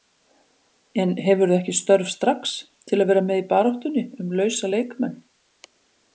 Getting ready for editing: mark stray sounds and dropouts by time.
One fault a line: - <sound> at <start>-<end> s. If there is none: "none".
none